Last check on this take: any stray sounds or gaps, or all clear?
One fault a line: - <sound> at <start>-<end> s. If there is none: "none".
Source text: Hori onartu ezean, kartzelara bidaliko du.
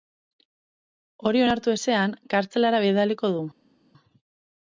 none